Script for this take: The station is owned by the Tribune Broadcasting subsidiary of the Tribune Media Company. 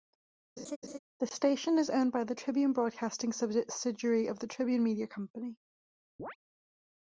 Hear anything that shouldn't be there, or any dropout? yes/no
yes